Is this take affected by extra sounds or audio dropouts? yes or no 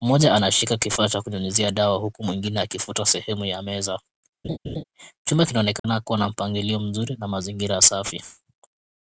yes